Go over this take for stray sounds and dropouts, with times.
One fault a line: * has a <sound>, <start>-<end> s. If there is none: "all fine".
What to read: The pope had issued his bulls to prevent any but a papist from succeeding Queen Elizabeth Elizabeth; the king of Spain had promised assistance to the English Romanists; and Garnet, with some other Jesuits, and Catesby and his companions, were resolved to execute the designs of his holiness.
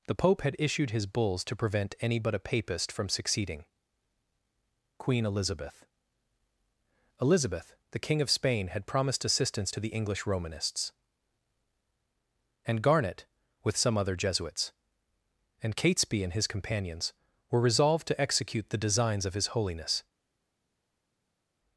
all fine